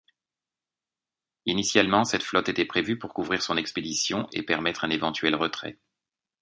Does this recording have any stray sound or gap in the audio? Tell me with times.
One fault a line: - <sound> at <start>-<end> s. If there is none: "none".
none